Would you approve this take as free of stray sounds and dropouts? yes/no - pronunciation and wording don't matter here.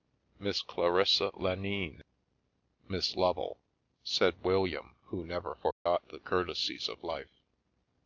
no